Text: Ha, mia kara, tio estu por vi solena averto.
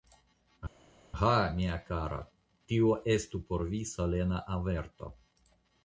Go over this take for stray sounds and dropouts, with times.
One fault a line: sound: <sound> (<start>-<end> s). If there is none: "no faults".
no faults